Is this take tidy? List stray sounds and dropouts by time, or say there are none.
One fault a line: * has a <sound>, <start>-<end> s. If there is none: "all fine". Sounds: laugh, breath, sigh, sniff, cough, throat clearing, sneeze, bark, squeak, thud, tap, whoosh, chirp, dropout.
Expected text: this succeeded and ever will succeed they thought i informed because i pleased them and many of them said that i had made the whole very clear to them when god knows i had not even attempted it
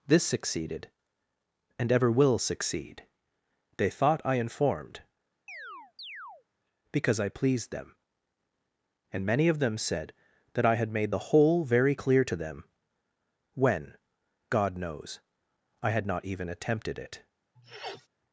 * has a chirp, 5.5-6.4 s
* has a sniff, 17.5-18.1 s